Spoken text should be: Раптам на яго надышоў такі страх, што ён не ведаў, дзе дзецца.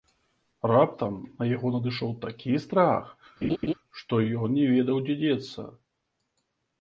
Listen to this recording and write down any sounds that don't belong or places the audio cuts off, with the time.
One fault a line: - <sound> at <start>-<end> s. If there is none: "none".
- laugh at 3.4-3.7 s